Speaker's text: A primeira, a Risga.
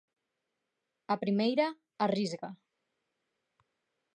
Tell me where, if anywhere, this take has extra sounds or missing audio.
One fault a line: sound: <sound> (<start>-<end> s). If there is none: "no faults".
no faults